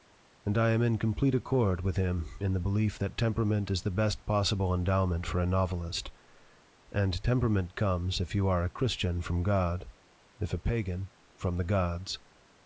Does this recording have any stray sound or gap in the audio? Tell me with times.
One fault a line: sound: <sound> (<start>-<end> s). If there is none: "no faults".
no faults